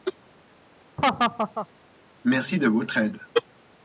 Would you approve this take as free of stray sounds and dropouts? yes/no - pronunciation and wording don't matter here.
no